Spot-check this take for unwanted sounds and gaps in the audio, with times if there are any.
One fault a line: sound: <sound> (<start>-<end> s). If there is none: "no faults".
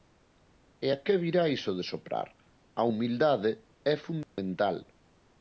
sound: dropout (4.2-4.4 s)